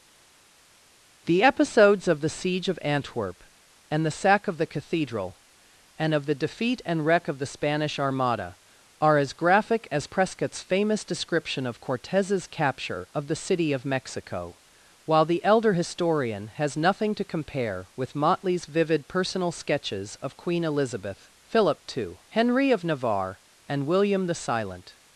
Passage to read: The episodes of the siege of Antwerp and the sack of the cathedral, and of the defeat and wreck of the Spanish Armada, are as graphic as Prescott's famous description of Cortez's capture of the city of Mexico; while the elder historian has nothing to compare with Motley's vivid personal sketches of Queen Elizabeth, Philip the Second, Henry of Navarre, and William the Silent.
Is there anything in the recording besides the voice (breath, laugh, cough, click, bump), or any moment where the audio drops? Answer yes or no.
no